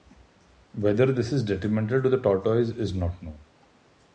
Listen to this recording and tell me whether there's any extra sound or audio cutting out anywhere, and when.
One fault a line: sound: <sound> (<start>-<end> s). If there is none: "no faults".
no faults